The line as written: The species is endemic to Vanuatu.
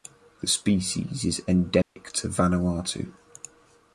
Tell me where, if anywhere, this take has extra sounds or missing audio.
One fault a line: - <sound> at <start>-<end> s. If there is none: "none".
- dropout at 1.8-2.0 s